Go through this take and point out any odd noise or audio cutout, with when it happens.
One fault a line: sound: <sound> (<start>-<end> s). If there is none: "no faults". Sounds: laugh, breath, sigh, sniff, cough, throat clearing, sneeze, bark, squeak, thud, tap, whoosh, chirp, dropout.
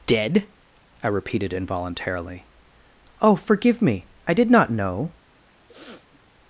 sound: sniff (5.7-6.2 s)